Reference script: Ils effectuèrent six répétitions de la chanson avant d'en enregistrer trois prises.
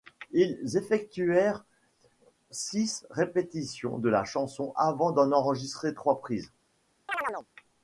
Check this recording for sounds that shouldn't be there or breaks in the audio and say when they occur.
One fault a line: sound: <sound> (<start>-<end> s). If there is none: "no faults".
sound: chirp (7.1-7.5 s)